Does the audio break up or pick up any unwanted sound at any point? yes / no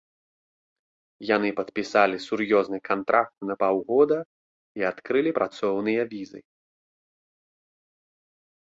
no